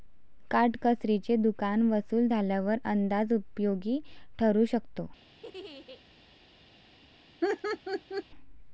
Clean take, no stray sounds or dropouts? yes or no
no